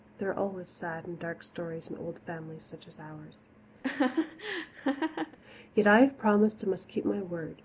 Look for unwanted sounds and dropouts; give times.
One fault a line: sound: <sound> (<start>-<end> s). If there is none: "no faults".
sound: laugh (3.8-5.4 s)